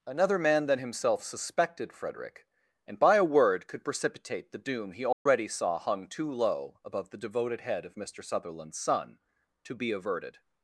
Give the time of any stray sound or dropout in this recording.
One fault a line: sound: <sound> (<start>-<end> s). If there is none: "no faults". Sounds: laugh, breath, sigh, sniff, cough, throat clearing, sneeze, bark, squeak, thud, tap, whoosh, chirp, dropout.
sound: dropout (5.1-5.3 s)